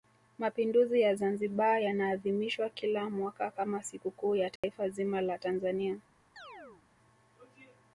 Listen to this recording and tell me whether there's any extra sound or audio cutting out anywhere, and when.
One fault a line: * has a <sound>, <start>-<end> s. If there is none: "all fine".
* has a dropout, 4.6-4.6 s
* has a chirp, 6.4-6.8 s